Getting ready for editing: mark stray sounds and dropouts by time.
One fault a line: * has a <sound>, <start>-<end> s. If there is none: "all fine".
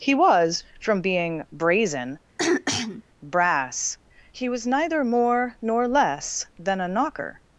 * has a throat clearing, 2.4-3.0 s